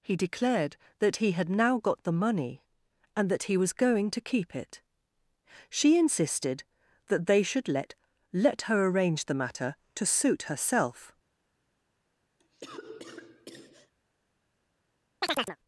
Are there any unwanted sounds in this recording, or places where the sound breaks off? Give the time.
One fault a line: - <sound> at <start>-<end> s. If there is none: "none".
- cough at 12.4-13.9 s
- chirp at 15.2-15.6 s